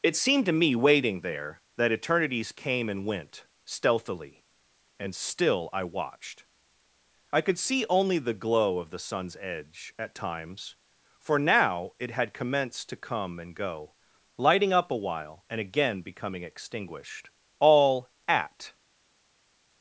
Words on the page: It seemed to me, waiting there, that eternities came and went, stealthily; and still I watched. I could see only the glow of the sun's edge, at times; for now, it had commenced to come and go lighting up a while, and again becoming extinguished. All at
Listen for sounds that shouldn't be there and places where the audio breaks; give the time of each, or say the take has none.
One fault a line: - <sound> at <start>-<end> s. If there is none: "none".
none